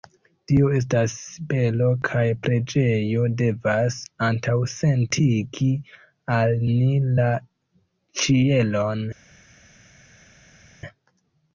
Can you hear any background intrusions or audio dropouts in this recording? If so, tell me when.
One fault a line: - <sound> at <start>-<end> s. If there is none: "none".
none